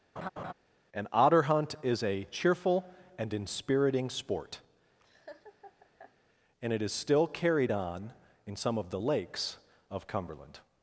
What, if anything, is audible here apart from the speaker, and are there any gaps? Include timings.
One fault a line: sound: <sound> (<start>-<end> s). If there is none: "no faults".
sound: laugh (0.2-0.5 s)
sound: laugh (5.0-6.1 s)